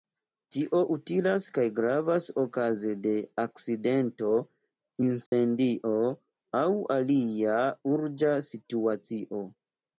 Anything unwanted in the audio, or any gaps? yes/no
yes